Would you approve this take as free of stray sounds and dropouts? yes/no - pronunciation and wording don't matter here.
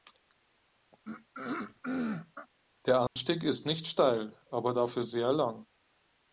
no